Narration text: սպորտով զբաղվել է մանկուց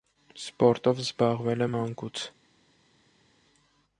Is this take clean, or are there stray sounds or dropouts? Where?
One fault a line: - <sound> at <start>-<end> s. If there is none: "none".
none